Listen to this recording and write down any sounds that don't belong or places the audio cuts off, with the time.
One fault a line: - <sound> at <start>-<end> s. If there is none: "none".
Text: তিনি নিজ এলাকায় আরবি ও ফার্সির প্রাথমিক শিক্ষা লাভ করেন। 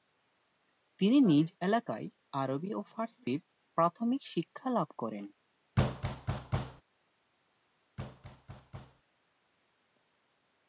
- thud at 5.8-6.8 s
- thud at 8.0-9.0 s